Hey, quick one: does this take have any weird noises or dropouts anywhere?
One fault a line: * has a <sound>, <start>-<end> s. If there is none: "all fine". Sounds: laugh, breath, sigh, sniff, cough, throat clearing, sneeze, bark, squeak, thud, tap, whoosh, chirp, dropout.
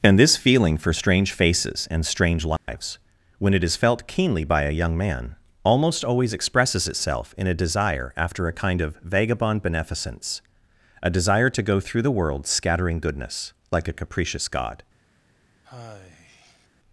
* has a dropout, 2.6-2.7 s
* has a sigh, 15.6-16.7 s